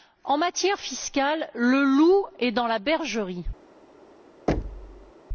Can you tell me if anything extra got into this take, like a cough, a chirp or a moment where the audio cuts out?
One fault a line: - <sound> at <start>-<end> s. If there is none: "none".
- thud at 4.5-5.1 s